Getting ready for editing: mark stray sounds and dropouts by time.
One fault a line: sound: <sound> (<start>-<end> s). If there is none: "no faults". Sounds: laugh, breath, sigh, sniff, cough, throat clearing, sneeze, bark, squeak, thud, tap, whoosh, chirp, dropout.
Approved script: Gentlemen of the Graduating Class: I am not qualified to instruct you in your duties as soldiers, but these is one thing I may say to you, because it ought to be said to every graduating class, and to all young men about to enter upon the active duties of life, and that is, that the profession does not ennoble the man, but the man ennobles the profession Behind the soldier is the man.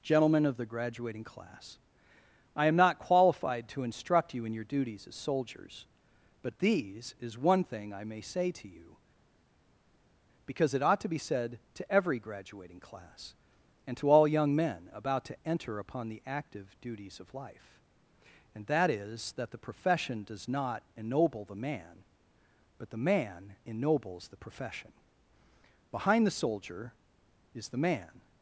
no faults